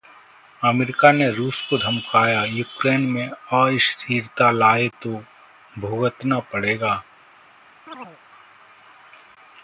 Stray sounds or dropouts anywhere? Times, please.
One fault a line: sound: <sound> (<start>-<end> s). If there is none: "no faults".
sound: chirp (7.9-8.2 s)